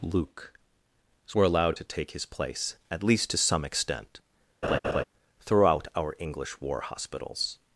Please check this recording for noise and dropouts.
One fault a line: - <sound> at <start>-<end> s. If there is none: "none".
- laugh at 4.6-5.0 s